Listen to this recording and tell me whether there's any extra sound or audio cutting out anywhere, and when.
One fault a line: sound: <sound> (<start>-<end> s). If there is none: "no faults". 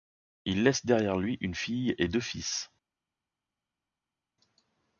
no faults